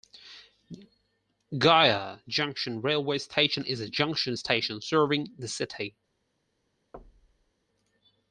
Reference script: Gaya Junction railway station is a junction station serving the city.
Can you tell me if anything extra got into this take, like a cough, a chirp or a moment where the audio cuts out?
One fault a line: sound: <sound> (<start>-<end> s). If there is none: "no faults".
sound: thud (6.9-7.5 s)